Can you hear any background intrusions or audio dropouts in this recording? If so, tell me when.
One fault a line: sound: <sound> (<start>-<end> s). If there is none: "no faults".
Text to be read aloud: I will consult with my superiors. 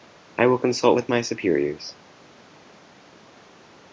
no faults